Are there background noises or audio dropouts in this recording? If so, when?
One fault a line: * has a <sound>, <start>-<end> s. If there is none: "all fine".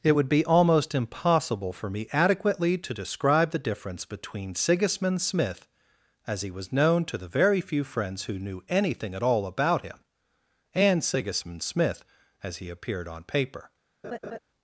* has a laugh, 14.0-14.4 s